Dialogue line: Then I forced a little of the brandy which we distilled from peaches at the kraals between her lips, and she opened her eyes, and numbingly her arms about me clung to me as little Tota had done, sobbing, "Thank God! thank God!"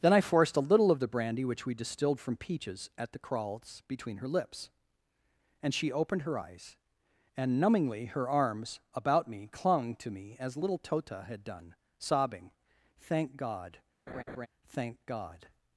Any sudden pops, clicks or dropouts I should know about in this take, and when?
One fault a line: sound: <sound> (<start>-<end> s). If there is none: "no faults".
sound: laugh (14.1-14.5 s)